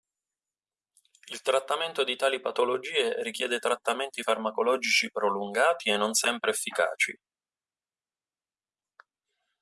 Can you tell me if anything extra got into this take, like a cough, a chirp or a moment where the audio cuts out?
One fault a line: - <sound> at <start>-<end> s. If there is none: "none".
none